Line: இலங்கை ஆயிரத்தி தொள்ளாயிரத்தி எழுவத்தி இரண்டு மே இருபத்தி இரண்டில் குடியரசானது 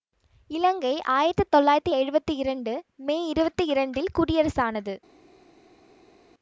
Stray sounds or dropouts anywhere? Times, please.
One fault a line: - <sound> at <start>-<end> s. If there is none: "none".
none